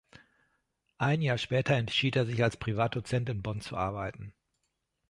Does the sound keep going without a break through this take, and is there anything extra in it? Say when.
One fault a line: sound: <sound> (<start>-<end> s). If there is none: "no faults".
no faults